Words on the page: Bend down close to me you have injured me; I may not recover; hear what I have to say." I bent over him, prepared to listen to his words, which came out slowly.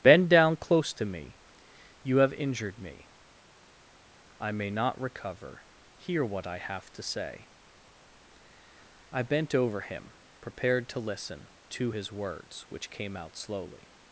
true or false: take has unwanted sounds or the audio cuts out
false